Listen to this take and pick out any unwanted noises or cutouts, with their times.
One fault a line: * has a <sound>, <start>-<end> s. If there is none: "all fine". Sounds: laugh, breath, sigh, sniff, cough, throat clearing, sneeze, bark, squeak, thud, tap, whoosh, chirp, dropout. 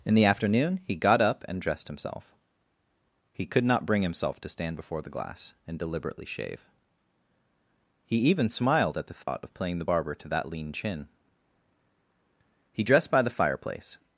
* has a dropout, 9.2-9.3 s